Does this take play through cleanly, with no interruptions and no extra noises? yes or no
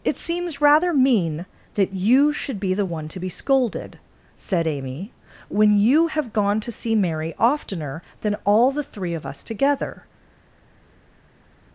yes